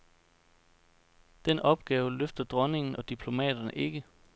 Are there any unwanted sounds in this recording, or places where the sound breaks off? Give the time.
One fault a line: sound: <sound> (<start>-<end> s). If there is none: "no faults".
no faults